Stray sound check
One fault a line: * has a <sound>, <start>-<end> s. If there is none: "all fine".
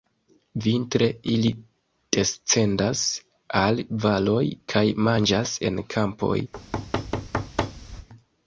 * has a thud, 6.5-8.1 s